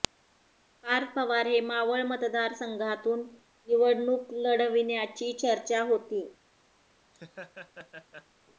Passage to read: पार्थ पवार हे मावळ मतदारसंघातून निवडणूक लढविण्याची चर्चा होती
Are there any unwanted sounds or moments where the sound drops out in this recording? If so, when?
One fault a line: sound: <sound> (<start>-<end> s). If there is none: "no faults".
sound: laugh (7.1-8.3 s)